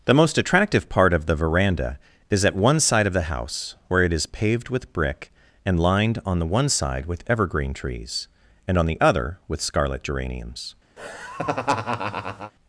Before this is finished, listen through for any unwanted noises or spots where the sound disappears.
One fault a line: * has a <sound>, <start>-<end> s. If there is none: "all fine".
* has a laugh, 11.0-12.5 s